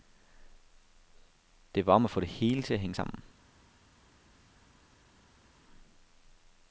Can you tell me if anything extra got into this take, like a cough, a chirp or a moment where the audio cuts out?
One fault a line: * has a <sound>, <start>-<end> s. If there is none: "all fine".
all fine